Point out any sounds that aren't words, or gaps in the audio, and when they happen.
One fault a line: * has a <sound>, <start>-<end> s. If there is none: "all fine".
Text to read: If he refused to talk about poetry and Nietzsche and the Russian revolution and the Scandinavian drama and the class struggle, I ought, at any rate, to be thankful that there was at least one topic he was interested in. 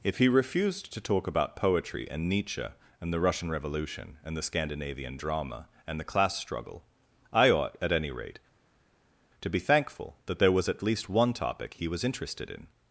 all fine